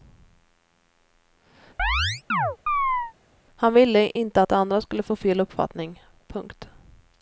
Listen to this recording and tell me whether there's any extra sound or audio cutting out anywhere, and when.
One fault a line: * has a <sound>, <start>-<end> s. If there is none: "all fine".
* has a chirp, 1.8-3.1 s